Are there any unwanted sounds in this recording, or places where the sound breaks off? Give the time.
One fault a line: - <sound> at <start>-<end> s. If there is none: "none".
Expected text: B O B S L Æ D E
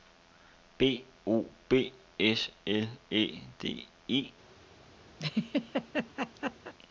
- laugh at 5.2-6.7 s